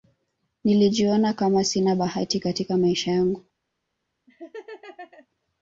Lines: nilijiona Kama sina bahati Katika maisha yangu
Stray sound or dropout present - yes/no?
yes